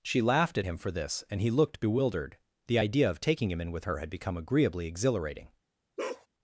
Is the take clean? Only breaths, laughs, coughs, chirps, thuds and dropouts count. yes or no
no